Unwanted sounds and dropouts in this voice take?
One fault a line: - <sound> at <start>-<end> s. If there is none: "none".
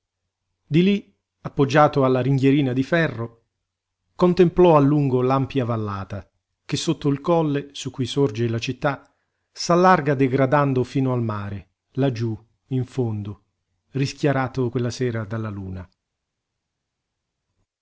none